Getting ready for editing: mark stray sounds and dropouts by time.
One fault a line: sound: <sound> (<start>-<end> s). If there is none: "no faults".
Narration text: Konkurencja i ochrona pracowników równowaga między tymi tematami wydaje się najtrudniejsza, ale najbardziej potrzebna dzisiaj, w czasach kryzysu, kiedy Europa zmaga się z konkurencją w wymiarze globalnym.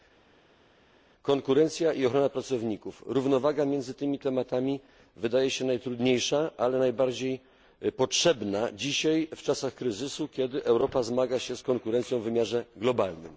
no faults